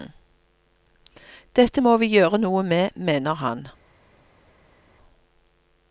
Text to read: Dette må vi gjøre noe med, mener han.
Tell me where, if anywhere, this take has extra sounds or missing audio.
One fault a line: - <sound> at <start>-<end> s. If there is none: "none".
none